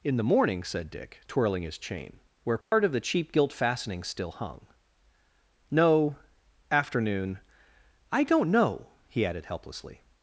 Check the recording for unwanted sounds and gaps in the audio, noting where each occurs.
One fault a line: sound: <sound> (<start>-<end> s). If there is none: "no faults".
sound: dropout (2.6-2.7 s)